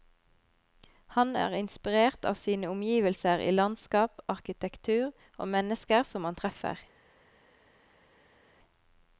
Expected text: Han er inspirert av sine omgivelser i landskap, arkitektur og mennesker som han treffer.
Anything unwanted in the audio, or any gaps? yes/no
no